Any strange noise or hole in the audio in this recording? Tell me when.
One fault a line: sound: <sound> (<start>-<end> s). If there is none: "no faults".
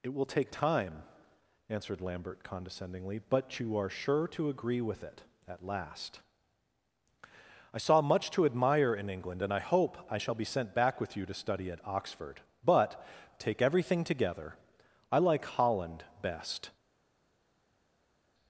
no faults